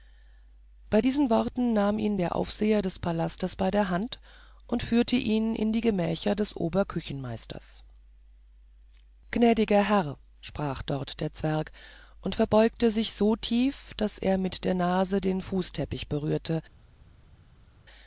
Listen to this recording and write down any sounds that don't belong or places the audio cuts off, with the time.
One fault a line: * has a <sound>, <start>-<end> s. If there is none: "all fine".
all fine